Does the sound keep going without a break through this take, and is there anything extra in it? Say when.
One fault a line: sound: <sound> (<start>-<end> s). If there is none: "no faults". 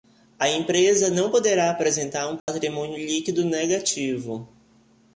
sound: dropout (2.4-2.5 s)